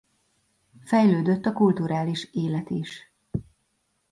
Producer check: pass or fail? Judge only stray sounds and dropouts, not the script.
pass